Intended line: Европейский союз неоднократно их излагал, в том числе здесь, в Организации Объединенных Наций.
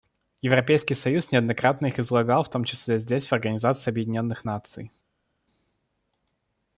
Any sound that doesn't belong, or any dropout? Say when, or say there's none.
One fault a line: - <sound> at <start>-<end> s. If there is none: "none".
none